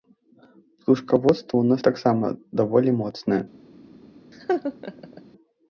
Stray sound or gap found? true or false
true